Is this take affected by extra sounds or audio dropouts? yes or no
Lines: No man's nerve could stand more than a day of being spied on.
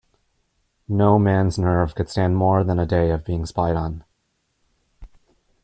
no